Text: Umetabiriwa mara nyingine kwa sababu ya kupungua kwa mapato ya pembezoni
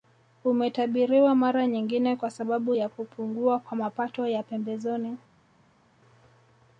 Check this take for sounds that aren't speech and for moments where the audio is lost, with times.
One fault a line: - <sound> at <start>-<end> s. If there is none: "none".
none